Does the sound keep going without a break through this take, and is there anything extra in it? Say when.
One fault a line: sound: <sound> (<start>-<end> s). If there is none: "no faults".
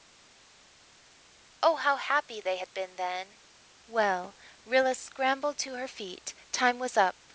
no faults